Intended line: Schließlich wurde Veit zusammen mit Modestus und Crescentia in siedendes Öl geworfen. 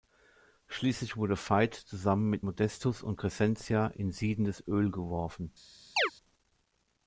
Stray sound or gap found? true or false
true